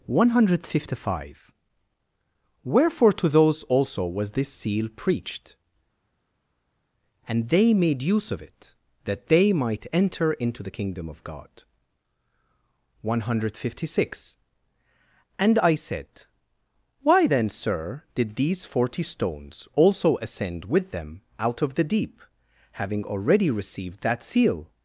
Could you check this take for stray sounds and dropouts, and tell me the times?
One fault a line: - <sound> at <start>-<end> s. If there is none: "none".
none